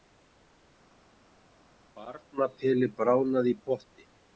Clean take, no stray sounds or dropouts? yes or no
yes